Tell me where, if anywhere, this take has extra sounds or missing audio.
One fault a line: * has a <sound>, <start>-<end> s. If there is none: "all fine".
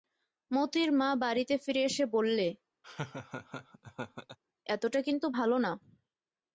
* has a laugh, 2.8-4.4 s